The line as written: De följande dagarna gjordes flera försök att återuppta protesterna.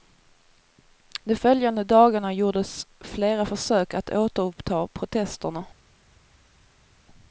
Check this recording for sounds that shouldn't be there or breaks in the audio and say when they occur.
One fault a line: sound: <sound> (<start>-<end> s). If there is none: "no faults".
no faults